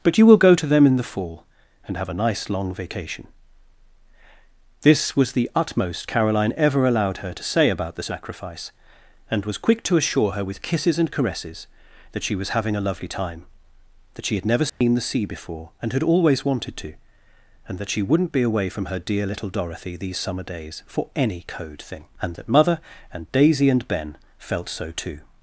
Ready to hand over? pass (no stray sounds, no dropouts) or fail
fail